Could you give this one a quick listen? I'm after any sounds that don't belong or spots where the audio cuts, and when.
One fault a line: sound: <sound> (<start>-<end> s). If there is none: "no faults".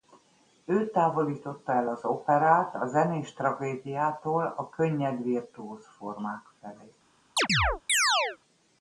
sound: chirp (7.4-8.4 s)